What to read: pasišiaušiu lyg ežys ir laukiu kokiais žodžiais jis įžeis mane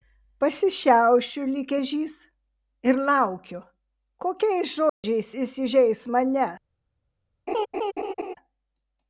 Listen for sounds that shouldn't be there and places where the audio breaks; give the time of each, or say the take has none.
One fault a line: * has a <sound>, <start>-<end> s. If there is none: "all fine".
* has a dropout, 4.9-5.0 s
* has a laugh, 7.5-8.3 s